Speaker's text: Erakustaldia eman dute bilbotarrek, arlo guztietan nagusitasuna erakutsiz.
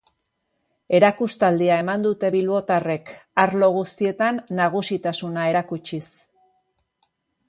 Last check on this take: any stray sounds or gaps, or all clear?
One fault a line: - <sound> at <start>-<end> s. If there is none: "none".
none